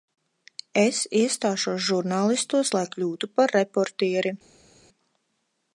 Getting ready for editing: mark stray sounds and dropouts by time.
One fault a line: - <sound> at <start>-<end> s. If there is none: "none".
none